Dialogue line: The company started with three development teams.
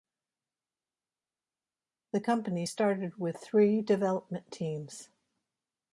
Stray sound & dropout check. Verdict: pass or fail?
pass